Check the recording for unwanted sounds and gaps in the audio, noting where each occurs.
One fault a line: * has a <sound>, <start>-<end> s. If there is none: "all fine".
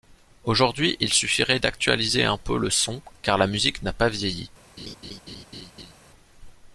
* has a laugh, 4.8-5.9 s